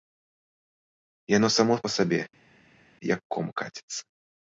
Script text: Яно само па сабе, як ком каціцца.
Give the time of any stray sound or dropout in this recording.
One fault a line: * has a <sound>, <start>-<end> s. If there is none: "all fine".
all fine